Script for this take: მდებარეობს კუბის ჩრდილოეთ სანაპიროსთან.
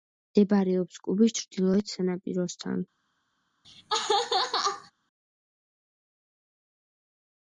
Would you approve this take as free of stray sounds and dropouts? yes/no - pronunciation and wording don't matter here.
no